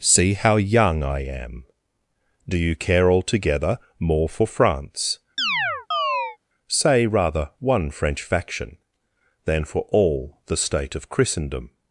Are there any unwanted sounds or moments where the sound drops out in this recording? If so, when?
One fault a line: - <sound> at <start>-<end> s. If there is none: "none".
- chirp at 5.4-6.4 s